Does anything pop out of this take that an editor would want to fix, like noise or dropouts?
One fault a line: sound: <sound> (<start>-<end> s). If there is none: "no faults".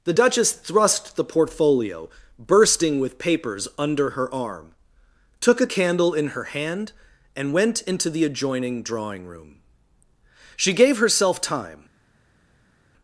no faults